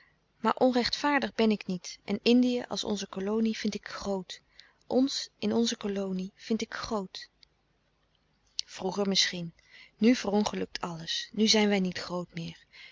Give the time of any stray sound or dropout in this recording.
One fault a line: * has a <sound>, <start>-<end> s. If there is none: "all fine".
all fine